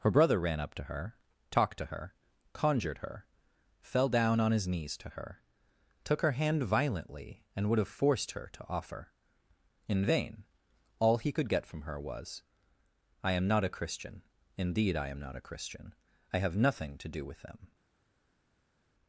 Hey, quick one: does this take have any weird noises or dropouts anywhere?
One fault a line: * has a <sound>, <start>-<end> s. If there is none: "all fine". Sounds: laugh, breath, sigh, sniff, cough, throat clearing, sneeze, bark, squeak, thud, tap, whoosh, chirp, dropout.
all fine